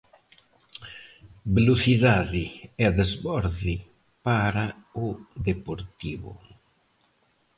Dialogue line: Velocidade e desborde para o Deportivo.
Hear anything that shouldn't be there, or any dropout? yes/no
no